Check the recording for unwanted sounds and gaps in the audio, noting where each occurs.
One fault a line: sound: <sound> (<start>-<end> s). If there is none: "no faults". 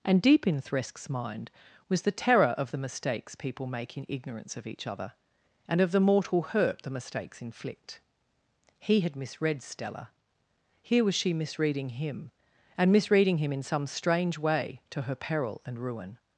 no faults